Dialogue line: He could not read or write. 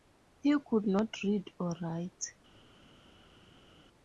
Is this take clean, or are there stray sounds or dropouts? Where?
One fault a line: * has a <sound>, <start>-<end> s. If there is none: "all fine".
all fine